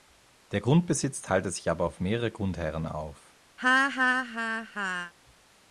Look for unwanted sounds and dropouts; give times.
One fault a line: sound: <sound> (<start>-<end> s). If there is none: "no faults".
sound: laugh (3.6-5.1 s)